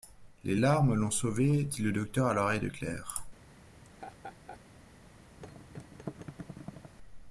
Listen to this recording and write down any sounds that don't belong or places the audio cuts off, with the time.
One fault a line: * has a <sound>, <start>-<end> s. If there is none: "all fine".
* has a laugh, 3.8-4.6 s
* has a thud, 5.4-6.9 s